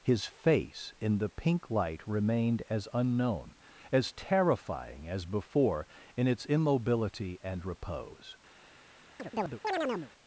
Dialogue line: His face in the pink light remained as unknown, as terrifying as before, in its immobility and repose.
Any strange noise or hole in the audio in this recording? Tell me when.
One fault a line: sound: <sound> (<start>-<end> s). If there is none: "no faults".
sound: chirp (9.2-10.1 s)